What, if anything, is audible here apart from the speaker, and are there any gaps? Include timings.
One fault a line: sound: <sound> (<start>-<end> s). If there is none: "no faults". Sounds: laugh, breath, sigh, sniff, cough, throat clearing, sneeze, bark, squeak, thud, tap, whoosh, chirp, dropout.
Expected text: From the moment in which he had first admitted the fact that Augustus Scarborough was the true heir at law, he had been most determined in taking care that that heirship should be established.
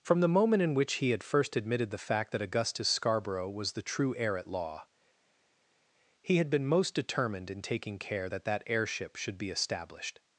no faults